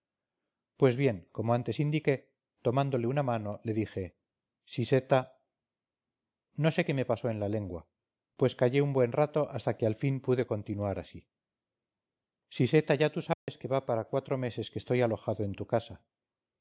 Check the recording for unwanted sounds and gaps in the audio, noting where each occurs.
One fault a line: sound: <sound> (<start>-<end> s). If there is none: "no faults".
sound: dropout (13.3-13.5 s)